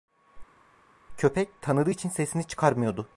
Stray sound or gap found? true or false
false